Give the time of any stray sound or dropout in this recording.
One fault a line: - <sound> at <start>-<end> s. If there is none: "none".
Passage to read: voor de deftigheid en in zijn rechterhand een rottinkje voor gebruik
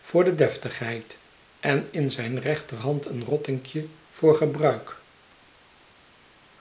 none